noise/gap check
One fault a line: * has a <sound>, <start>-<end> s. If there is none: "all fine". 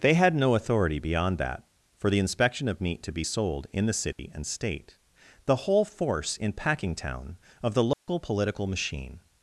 * has a dropout, 4.1-4.2 s
* has a dropout, 7.9-8.1 s